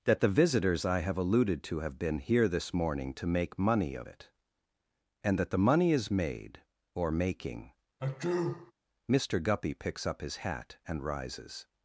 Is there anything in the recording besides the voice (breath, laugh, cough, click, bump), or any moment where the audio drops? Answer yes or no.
yes